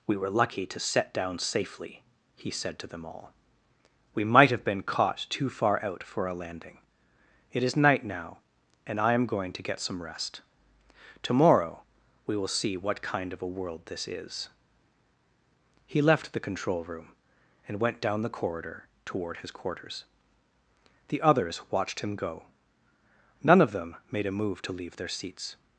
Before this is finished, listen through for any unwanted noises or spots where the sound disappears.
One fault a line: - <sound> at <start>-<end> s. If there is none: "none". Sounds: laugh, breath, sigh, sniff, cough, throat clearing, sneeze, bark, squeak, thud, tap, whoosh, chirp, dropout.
none